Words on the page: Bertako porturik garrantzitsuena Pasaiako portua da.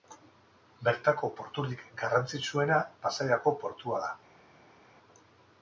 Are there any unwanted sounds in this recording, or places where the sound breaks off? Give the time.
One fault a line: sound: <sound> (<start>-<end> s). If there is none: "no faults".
no faults